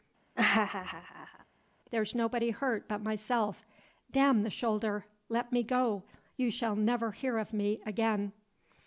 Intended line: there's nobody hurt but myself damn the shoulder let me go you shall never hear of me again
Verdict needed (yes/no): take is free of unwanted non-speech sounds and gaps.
no